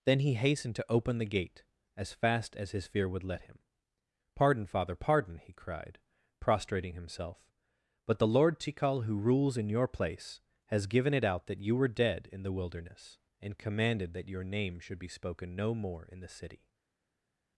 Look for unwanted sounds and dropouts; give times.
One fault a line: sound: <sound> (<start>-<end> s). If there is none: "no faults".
no faults